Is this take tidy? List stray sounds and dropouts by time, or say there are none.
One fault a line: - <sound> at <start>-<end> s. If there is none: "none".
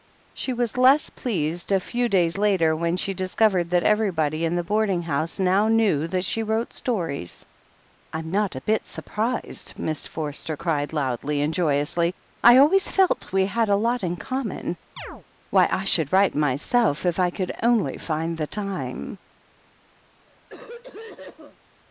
- chirp at 15.0-15.2 s
- cough at 20.3-21.6 s